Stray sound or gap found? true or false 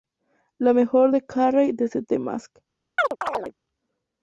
true